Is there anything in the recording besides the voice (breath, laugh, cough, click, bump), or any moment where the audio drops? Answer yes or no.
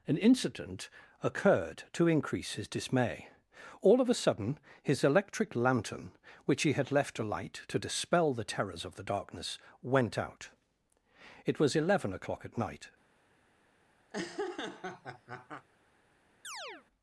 yes